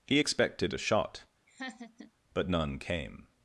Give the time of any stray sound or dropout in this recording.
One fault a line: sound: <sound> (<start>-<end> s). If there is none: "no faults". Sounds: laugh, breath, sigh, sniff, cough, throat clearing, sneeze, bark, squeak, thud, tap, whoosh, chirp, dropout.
sound: laugh (1.5-2.1 s)